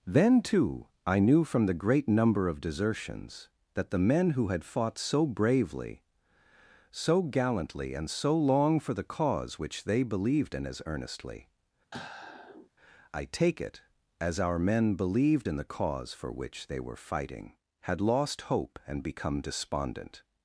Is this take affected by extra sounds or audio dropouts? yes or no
yes